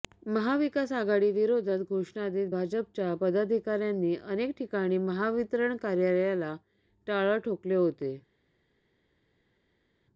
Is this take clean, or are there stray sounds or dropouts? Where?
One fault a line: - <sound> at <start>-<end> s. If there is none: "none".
none